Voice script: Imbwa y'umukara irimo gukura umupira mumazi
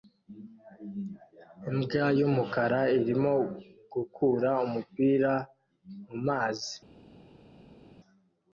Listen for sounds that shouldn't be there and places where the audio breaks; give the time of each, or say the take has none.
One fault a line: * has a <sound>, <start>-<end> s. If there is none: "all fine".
all fine